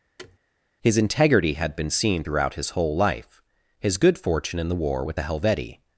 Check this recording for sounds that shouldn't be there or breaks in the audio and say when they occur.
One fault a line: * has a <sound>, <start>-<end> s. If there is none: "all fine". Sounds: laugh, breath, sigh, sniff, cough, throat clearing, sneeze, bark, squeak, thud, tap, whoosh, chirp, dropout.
* has a thud, 0.2-0.4 s